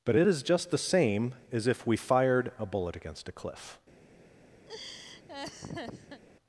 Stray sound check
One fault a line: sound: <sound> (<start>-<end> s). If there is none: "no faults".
sound: laugh (4.7-6.2 s)